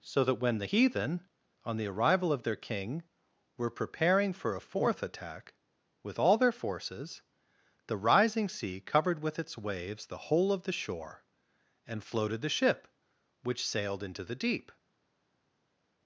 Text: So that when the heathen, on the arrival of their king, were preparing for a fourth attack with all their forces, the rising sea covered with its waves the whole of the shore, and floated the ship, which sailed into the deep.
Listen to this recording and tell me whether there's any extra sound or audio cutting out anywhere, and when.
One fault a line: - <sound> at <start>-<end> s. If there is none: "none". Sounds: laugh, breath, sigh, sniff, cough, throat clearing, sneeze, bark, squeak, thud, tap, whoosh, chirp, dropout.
none